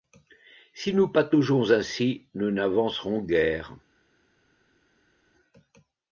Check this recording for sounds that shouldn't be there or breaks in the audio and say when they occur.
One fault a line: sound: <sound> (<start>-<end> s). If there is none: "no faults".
no faults